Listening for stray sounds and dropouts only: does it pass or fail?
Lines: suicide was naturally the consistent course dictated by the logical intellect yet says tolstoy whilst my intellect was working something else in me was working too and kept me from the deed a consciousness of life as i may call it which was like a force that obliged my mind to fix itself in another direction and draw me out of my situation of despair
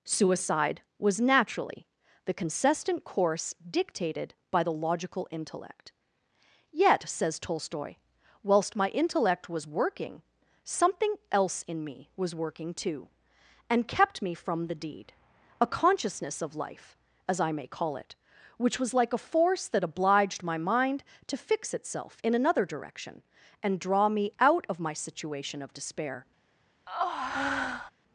fail